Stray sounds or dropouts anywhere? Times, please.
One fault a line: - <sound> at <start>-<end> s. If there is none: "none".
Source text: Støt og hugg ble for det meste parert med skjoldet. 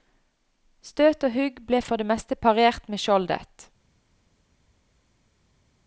none